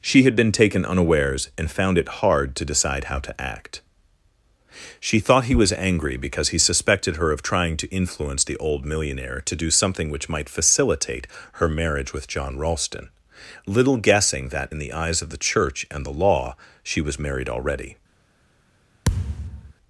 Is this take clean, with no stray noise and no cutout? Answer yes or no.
no